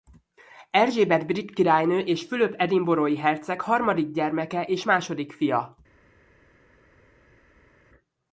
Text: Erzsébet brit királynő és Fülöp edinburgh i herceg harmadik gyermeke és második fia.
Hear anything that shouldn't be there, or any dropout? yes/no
no